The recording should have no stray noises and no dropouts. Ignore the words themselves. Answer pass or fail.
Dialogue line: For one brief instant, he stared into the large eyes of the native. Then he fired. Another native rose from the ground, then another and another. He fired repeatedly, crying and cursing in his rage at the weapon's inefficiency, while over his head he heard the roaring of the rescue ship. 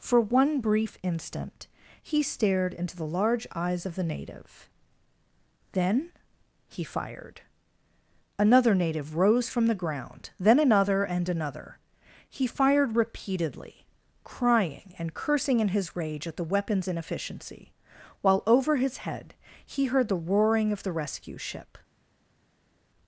pass